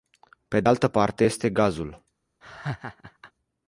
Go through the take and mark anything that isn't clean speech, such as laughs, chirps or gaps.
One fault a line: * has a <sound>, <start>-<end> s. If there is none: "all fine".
* has a laugh, 2.4-3.3 s